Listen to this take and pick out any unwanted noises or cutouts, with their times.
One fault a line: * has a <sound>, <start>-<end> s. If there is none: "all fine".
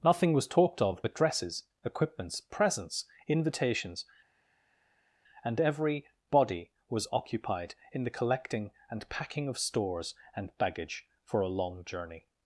all fine